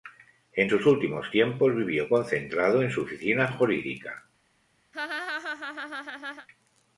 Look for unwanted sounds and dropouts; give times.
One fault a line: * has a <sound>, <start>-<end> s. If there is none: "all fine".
* has a laugh, 4.9-6.5 s